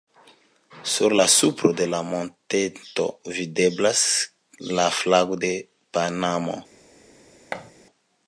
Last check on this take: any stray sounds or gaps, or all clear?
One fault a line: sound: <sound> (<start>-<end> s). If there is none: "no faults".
sound: thud (7.5-7.7 s)